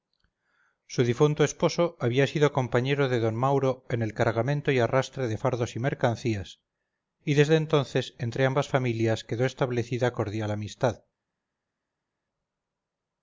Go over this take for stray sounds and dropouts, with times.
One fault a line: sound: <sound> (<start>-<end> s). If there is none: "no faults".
no faults